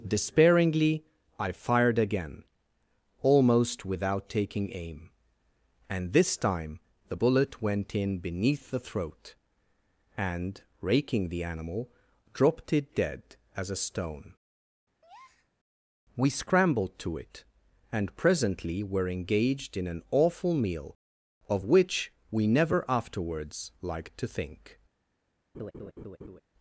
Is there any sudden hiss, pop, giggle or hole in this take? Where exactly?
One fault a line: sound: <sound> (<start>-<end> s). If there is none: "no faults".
sound: breath (15.0-15.5 s)
sound: laugh (25.5-26.4 s)